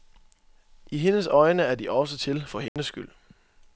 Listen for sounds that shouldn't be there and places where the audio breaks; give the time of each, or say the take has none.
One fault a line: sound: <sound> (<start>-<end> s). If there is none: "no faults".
sound: dropout (2.7-2.8 s)